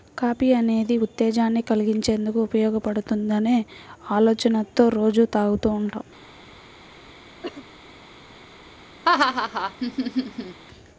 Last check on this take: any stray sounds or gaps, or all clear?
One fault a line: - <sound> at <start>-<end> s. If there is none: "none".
- cough at 7.4-7.7 s
- laugh at 9.0-10.6 s